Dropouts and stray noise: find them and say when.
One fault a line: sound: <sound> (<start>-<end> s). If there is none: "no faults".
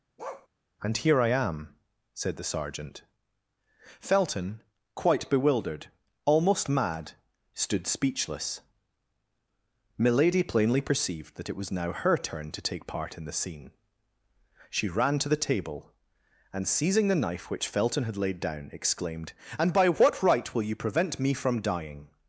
sound: bark (0.2-0.5 s)